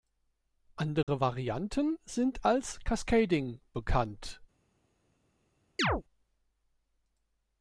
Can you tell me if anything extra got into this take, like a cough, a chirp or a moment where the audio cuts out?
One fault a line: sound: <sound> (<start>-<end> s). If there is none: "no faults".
sound: dropout (1.0-1.1 s)
sound: chirp (5.8-6.0 s)